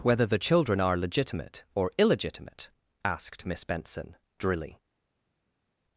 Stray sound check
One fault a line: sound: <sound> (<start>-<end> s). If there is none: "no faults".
no faults